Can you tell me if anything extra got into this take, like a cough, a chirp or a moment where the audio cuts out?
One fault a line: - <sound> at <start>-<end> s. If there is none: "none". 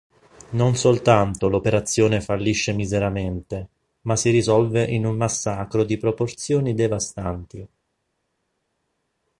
none